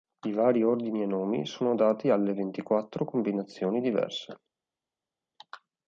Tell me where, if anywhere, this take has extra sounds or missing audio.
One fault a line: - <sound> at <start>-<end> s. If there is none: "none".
none